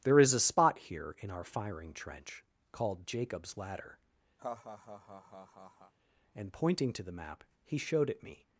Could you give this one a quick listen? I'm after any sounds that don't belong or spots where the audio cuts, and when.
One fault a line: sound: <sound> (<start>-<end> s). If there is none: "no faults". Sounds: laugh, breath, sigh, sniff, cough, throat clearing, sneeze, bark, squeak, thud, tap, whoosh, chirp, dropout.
sound: laugh (4.4-5.9 s)